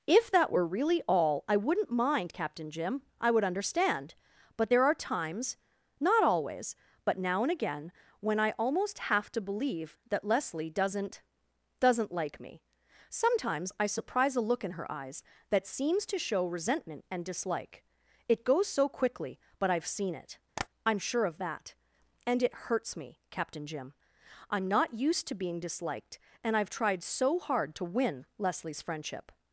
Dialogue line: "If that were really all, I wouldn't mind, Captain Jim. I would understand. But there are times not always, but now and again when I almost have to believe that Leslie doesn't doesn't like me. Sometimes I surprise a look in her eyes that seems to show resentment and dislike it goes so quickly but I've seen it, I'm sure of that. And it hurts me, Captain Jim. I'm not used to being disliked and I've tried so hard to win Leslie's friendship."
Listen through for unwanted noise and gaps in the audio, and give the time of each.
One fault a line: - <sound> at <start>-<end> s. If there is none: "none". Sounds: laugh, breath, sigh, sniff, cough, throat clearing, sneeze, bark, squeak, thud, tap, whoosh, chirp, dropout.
- tap at 20.6-20.7 s